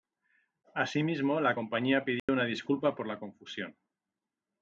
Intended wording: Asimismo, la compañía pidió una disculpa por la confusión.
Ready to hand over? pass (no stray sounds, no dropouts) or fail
fail